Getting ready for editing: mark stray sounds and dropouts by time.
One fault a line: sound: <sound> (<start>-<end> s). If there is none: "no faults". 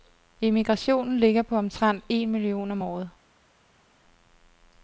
no faults